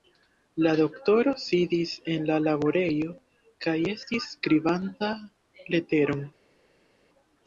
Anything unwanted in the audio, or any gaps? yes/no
no